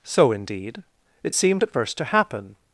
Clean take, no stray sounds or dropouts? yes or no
yes